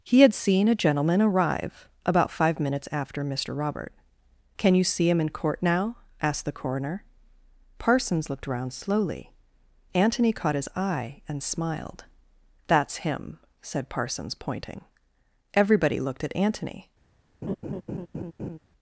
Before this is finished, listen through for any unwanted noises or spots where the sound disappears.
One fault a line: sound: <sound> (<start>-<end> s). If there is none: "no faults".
sound: laugh (17.4-18.6 s)